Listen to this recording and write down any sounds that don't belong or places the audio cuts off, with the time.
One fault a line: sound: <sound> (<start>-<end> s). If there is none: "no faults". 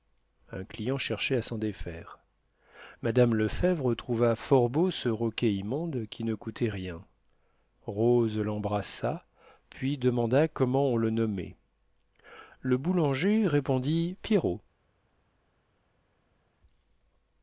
no faults